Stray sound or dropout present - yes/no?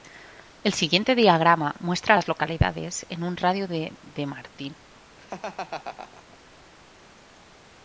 yes